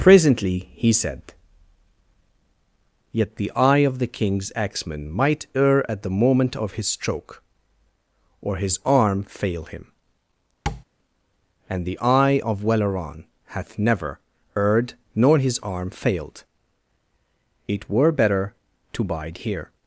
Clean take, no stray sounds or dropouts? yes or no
no